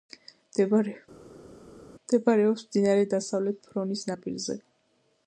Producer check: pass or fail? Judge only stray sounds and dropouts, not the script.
pass